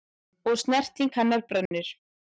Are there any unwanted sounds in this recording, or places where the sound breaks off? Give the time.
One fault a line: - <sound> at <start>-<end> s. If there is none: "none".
- dropout at 1.7-1.7 s